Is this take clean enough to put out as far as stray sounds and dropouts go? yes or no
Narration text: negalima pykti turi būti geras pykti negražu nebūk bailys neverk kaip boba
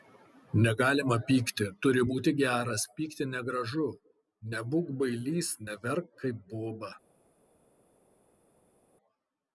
yes